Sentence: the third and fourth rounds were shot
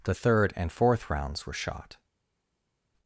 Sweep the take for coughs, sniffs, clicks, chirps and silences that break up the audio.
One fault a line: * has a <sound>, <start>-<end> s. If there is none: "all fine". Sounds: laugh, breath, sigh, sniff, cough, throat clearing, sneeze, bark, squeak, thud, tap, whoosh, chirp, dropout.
all fine